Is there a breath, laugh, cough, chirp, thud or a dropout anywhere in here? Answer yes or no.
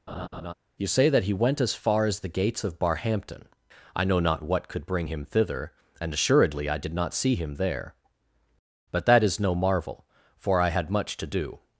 yes